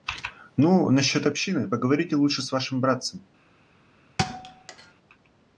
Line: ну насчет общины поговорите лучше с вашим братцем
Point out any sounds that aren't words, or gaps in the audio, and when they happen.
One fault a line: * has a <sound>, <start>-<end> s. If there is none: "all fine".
* has a thud, 4.2-4.9 s